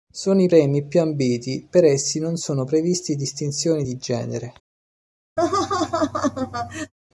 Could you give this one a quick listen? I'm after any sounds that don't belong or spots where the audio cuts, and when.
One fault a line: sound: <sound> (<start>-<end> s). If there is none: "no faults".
sound: laugh (5.4-6.9 s)